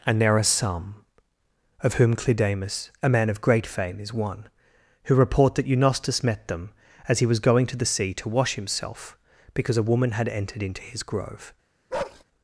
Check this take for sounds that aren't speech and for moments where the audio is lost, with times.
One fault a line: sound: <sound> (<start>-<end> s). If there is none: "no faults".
sound: bark (11.9-12.2 s)